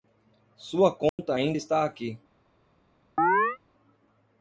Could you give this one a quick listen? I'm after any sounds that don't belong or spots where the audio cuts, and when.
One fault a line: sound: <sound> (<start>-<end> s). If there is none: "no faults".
sound: dropout (1.1-1.2 s)
sound: chirp (3.2-3.6 s)